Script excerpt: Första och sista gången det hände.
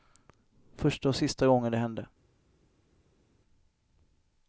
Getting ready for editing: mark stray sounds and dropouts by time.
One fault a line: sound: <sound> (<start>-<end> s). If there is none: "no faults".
no faults